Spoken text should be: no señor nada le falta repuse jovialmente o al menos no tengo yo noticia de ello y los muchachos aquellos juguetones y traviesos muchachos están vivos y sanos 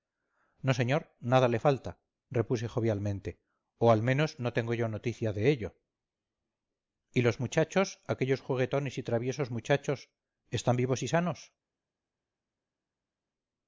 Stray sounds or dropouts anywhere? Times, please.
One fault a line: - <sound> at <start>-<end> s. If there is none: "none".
none